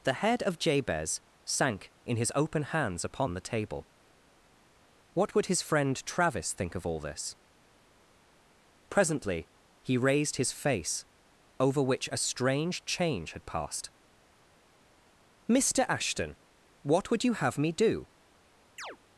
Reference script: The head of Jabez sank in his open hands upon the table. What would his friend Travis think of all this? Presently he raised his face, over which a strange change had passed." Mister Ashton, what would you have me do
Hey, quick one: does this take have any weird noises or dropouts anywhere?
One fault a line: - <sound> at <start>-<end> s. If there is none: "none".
- chirp at 18.8-19.0 s